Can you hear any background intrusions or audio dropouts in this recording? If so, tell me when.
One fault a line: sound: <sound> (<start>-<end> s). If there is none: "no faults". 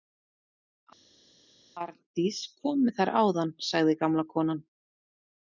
no faults